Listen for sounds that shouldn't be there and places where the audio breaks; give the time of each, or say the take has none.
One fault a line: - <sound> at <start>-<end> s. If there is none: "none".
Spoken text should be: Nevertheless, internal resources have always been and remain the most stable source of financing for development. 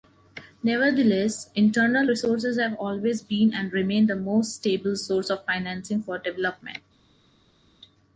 none